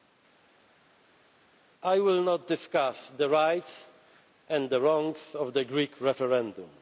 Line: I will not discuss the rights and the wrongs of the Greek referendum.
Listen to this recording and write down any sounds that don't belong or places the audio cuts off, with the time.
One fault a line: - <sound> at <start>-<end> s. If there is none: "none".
none